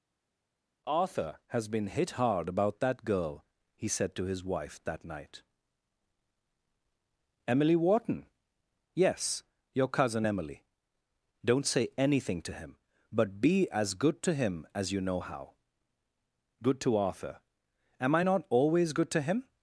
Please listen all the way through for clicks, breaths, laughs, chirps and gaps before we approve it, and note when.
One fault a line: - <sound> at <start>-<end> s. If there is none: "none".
none